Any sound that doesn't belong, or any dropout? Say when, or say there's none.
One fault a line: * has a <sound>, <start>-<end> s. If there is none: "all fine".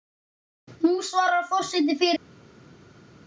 all fine